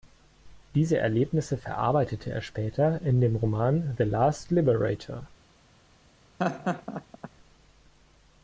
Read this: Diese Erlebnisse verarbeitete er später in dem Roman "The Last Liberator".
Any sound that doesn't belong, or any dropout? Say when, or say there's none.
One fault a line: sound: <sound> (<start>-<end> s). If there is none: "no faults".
sound: laugh (6.4-7.3 s)